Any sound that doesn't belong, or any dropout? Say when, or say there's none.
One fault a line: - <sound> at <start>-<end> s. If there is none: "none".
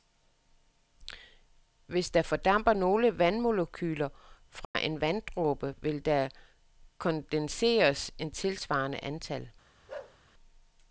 - dropout at 4.6-4.7 s
- bark at 9.9-10.2 s